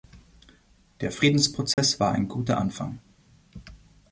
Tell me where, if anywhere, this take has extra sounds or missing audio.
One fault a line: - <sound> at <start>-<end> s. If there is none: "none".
- dropout at 1.7-1.8 s